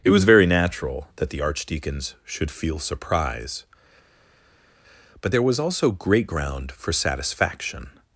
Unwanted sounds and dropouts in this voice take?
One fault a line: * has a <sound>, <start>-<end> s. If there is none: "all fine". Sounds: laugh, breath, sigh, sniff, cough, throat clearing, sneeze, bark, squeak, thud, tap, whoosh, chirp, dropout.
all fine